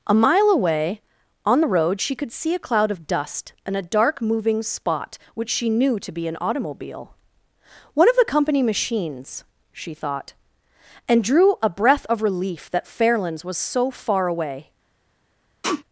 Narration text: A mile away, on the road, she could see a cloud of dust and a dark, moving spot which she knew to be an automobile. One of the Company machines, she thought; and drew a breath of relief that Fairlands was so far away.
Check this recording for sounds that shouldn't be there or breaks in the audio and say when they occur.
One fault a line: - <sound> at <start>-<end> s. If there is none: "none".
- sneeze at 15.6-15.8 s